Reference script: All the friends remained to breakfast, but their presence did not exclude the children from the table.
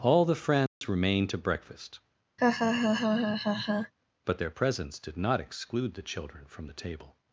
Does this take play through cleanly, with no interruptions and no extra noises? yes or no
no